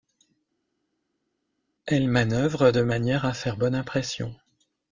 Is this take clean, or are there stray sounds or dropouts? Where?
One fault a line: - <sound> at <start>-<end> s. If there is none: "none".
none